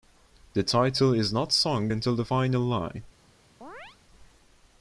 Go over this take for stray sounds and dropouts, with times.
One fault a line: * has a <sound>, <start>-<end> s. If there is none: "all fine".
* has a chirp, 3.6-4.0 s